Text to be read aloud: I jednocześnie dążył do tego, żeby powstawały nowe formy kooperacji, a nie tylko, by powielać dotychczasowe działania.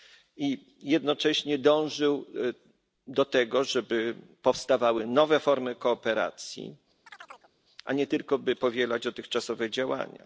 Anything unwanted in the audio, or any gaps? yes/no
yes